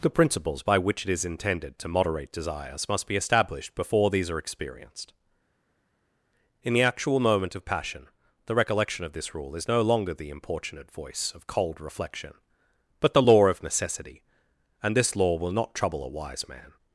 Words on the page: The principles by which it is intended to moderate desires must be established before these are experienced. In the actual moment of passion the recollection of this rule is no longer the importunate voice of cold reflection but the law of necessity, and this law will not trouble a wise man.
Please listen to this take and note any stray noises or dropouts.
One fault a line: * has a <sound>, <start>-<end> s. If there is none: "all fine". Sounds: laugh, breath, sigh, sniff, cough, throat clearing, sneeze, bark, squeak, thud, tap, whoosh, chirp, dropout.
all fine